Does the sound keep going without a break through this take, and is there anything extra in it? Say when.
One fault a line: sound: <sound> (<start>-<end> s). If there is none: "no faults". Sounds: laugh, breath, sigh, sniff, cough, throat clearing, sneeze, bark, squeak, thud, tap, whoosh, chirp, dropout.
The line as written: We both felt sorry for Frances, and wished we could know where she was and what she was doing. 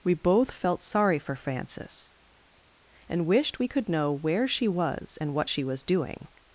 no faults